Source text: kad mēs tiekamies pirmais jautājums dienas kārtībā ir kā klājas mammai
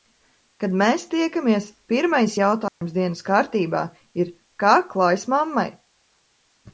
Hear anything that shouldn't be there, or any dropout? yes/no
yes